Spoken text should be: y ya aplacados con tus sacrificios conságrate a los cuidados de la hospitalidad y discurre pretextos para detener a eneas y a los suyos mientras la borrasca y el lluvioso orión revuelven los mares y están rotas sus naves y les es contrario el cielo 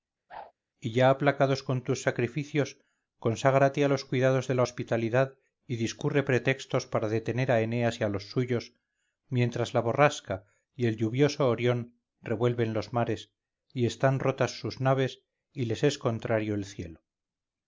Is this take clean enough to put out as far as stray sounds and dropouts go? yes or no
no